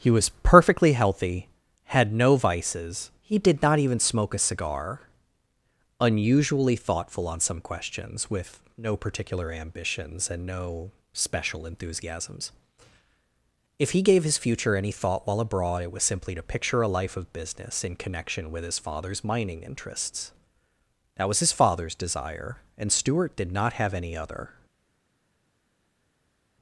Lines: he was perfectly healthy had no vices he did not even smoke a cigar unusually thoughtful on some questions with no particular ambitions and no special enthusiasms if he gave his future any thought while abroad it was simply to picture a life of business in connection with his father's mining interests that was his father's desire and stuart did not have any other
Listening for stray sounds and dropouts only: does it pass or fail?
pass